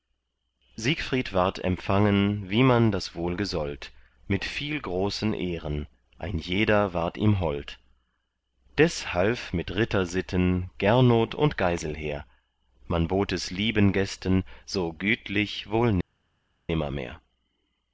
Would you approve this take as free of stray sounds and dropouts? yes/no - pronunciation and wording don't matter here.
yes